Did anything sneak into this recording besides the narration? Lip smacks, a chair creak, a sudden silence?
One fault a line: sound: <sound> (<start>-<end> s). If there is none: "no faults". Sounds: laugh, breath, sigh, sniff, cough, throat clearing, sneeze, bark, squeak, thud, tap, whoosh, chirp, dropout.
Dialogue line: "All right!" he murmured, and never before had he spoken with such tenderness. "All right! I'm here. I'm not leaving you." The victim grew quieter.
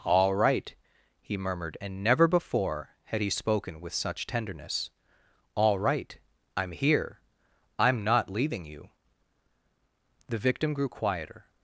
no faults